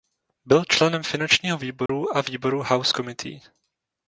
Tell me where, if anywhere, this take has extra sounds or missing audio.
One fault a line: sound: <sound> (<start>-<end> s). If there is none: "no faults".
sound: dropout (1.9-1.9 s)